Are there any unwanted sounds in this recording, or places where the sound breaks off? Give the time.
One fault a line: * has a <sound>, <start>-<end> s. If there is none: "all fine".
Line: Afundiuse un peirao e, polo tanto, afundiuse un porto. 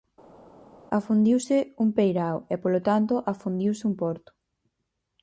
all fine